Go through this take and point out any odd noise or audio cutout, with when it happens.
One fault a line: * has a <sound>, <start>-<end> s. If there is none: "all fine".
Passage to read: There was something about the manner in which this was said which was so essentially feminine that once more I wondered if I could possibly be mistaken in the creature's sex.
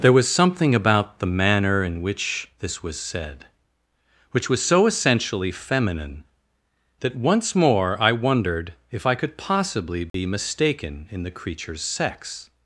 * has a dropout, 10.1-10.1 s